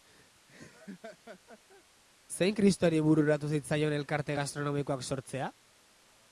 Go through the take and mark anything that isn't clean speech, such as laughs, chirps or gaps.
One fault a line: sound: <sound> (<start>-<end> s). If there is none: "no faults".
sound: laugh (0.5-1.8 s)